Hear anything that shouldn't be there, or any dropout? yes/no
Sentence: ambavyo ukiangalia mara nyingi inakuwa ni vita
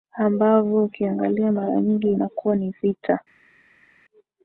no